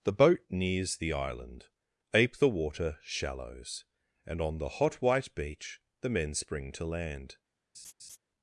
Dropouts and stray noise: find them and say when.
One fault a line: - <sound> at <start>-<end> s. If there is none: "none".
- laugh at 7.7-8.2 s